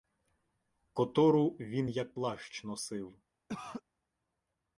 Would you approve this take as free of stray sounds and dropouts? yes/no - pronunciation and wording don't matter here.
no